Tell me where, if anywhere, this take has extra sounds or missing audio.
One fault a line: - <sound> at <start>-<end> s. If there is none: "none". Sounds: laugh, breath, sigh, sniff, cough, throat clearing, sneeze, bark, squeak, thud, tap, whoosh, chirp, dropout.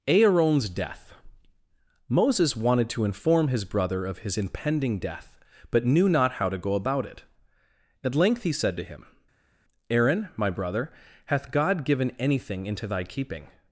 none